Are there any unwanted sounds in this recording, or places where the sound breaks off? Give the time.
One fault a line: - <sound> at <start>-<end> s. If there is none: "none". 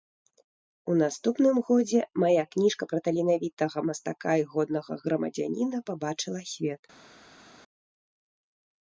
none